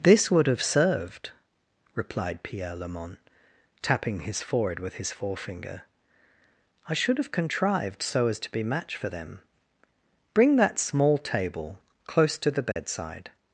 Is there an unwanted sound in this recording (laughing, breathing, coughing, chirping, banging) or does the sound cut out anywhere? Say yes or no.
yes